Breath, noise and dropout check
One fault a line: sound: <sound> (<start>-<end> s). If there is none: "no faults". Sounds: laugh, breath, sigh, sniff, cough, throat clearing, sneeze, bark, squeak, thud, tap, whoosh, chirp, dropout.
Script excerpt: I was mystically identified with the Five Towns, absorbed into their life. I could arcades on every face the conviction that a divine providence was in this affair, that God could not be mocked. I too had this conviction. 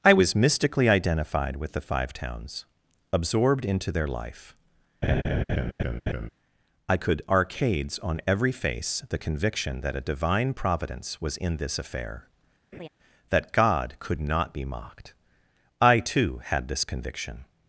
sound: laugh (5.0-6.3 s)
sound: laugh (12.7-12.9 s)